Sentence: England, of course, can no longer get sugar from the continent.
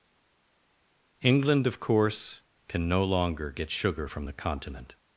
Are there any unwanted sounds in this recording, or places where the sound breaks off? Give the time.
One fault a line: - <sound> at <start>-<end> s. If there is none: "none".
none